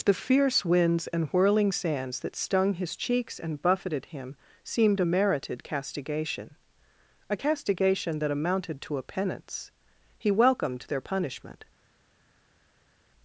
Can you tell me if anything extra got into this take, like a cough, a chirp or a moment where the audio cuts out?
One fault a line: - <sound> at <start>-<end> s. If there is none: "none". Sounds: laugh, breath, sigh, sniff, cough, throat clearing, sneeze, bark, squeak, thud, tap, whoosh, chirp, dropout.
none